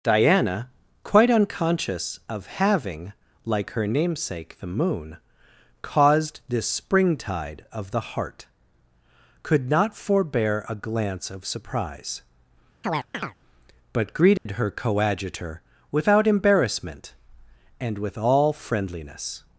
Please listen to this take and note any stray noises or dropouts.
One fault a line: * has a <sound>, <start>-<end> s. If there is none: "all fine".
* has a chirp, 12.8-13.4 s
* has a dropout, 14.4-14.5 s